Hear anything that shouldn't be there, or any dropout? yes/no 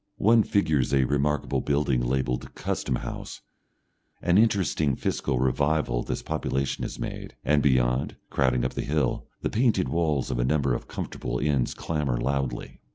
no